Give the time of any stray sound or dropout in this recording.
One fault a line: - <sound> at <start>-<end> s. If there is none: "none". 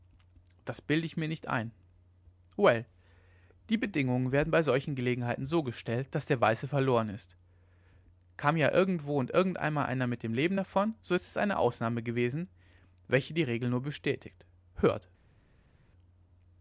none